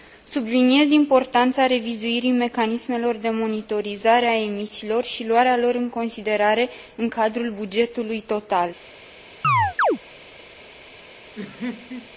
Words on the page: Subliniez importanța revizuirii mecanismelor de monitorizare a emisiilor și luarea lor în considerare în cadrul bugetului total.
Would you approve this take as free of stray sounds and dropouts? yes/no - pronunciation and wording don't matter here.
no